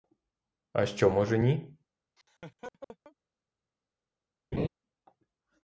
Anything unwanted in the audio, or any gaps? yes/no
yes